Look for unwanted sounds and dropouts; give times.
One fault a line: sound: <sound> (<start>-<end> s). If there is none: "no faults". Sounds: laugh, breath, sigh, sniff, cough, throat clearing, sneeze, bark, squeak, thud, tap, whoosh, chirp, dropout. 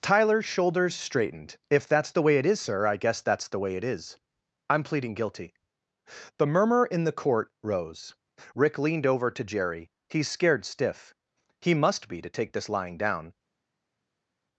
no faults